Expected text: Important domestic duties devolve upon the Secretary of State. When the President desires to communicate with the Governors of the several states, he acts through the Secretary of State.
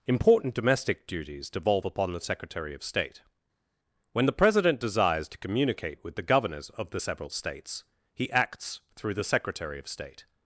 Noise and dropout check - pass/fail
pass